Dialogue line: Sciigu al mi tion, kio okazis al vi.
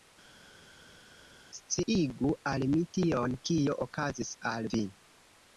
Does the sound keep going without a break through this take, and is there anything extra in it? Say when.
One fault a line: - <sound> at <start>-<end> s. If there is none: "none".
none